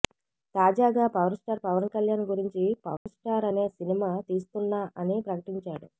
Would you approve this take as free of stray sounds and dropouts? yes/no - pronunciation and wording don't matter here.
no